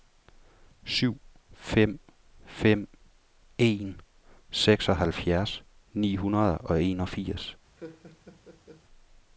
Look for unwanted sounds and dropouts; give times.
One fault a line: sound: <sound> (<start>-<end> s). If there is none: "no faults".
sound: laugh (7.8-8.8 s)